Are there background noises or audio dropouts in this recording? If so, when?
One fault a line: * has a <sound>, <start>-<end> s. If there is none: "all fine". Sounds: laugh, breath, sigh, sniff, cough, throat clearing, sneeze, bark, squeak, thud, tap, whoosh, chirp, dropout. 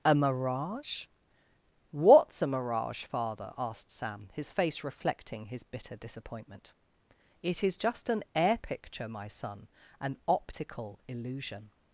all fine